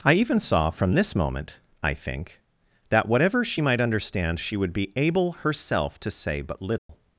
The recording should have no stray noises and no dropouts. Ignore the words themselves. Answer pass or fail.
fail